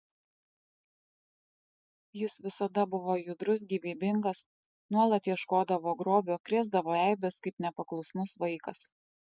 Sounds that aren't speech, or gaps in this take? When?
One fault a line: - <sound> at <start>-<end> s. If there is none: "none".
none